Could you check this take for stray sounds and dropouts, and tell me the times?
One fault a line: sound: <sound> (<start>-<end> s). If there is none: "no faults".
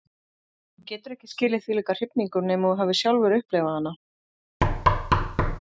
sound: thud (4.6-5.6 s)